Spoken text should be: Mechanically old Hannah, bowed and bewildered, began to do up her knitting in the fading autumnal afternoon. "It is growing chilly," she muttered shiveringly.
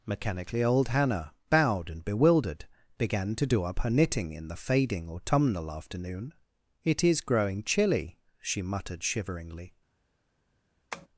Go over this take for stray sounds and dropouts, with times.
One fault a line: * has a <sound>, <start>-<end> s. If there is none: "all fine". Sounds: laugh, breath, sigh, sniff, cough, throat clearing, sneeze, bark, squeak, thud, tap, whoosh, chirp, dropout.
* has a tap, 10.9-11.1 s